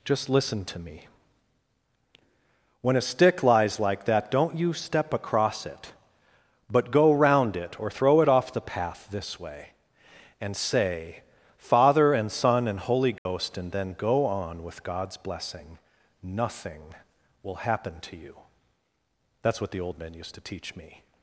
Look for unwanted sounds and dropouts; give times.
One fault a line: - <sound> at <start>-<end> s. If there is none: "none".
- dropout at 13.2-13.3 s